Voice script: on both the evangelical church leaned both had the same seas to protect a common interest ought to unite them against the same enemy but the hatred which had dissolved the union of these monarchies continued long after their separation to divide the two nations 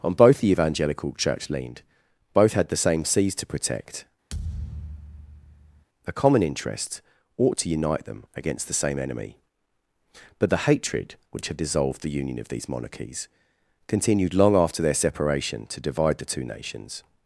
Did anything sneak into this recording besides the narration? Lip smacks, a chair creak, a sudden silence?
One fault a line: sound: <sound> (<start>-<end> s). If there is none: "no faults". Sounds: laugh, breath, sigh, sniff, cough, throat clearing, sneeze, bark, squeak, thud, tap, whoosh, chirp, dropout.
sound: thud (4.3-5.8 s)